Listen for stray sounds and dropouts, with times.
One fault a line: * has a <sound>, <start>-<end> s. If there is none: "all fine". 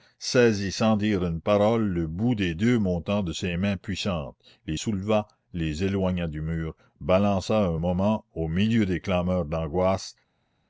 all fine